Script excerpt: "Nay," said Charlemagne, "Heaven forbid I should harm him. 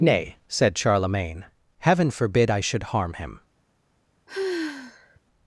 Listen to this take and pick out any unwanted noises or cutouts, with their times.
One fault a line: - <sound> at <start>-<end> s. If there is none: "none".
- sigh at 4.3-5.2 s